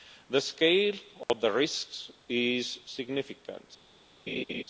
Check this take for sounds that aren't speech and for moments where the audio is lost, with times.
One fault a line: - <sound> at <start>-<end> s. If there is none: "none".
- dropout at 1.2-1.3 s
- laugh at 4.3-4.6 s